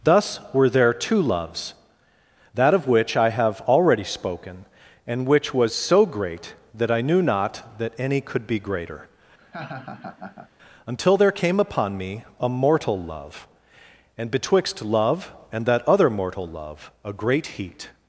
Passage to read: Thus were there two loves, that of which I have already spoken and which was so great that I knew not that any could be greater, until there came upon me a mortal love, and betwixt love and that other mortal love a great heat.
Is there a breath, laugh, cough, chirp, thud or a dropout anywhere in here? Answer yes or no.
yes